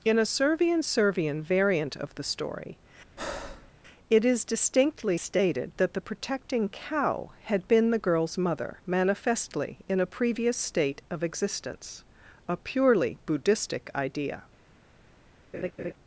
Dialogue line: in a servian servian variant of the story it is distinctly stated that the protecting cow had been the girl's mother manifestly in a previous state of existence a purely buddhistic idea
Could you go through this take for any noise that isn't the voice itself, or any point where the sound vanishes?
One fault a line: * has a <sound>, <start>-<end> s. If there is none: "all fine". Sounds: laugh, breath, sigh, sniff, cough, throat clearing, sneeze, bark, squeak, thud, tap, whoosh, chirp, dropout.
* has a breath, 3.2-3.7 s
* has a laugh, 15.5-15.9 s